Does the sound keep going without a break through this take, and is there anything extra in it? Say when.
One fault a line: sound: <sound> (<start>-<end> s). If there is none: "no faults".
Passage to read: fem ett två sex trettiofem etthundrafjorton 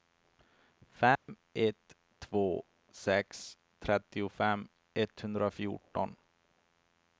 sound: dropout (1.2-1.3 s)